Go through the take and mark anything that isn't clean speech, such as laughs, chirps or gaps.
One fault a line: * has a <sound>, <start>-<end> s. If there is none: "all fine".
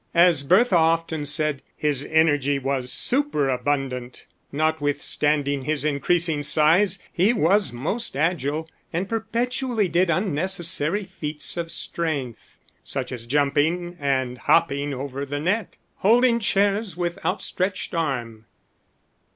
all fine